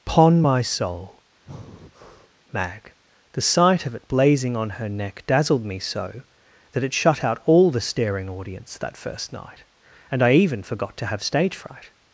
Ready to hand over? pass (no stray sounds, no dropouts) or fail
fail